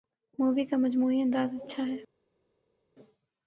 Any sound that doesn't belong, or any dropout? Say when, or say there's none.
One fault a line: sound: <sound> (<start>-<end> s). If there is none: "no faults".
no faults